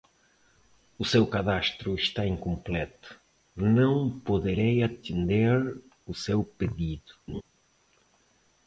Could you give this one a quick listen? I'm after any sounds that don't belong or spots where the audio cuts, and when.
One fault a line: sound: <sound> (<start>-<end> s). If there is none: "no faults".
sound: laugh (7.3-7.4 s)